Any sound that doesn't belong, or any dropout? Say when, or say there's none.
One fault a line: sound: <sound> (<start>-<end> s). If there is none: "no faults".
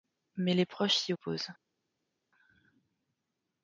no faults